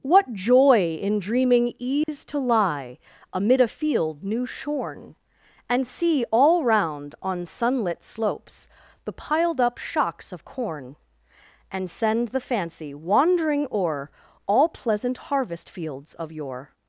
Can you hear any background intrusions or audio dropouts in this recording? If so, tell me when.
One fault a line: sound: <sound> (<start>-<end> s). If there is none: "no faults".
sound: dropout (2.0-2.1 s)